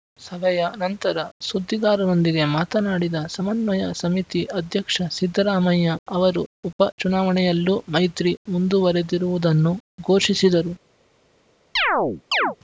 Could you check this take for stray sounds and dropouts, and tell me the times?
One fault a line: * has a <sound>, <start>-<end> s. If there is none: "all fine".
* has a chirp, 11.8-12.6 s